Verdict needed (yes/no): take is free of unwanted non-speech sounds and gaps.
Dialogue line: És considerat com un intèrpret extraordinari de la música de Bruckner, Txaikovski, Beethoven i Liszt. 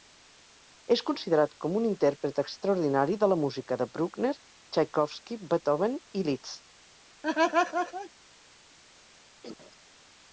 no